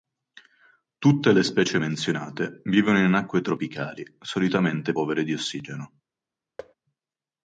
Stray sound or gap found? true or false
true